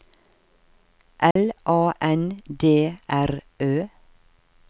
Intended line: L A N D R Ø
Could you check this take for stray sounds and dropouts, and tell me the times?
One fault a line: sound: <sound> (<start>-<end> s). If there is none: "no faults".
sound: dropout (1.3-1.4 s)